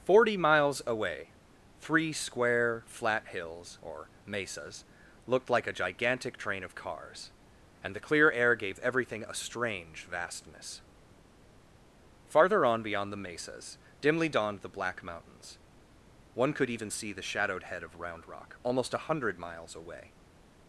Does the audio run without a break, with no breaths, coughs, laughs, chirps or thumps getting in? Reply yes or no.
yes